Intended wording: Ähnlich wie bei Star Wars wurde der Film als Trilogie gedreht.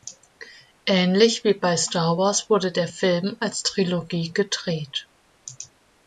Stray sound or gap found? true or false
false